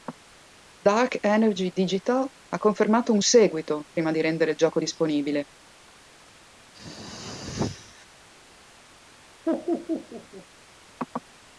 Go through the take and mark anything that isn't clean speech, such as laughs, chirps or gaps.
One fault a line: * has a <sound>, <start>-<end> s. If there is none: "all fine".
* has a throat clearing, 6.7-8.1 s
* has a laugh, 9.5-10.5 s